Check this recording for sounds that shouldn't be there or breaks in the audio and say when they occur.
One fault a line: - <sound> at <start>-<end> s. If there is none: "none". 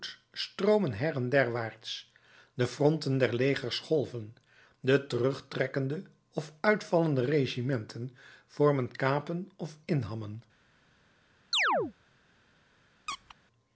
- chirp at 11.5-11.9 s
- squeak at 13.1-13.4 s